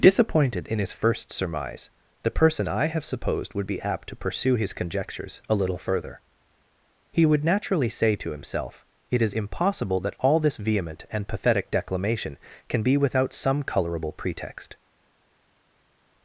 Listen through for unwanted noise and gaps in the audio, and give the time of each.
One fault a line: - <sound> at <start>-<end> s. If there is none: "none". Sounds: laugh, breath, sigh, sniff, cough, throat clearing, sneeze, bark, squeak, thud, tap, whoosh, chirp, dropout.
none